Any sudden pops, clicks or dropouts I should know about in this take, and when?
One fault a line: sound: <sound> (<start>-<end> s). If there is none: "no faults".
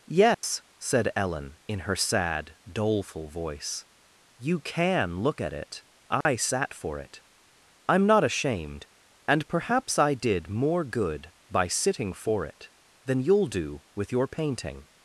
sound: dropout (0.3-0.4 s)
sound: dropout (6.2-6.3 s)